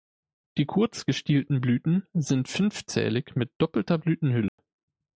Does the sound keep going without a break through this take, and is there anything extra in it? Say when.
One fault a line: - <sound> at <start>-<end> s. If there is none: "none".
- dropout at 4.5-4.6 s